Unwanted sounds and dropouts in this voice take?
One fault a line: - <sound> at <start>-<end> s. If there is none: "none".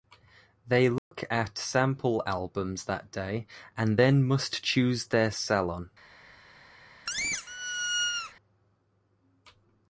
- dropout at 1.0-1.1 s
- squeak at 7.1-8.3 s